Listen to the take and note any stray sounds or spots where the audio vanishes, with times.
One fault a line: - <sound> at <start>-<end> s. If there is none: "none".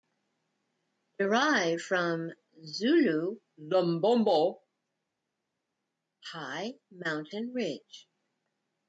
none